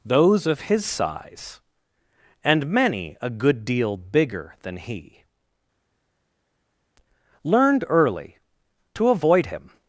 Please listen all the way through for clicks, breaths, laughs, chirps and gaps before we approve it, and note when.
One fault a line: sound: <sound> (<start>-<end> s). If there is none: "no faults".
no faults